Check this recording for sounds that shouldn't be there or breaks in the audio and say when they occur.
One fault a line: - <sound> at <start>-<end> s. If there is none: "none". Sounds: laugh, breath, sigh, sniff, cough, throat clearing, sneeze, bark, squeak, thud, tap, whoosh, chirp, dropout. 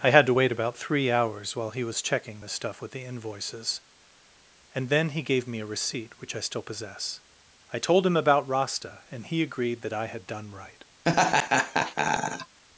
- laugh at 11.0-12.6 s